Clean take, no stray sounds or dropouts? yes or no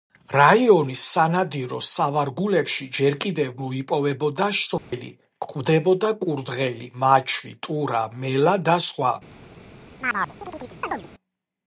no